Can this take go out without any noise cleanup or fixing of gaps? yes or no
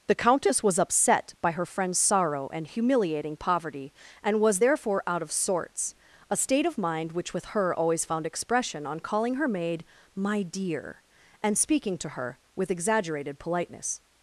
yes